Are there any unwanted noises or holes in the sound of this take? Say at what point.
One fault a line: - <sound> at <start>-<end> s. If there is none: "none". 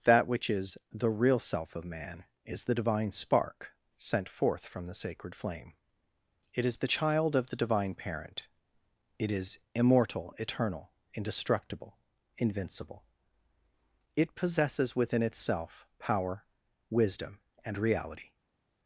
none